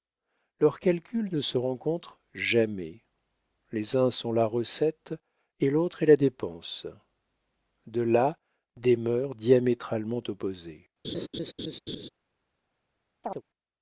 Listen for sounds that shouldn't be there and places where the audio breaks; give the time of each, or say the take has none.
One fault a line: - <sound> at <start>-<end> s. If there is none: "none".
- laugh at 11.0-12.1 s
- chirp at 13.2-13.4 s